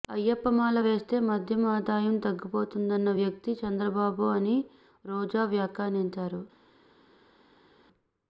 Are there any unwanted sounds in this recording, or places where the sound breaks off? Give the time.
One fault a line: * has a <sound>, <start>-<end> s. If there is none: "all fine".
all fine